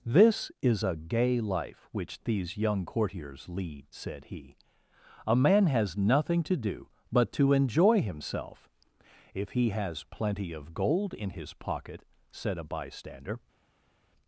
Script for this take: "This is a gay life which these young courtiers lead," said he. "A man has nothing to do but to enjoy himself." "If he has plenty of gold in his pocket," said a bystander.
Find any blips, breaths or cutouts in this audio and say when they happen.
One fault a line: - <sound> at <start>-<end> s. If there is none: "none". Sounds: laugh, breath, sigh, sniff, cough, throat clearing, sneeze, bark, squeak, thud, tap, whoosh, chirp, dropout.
none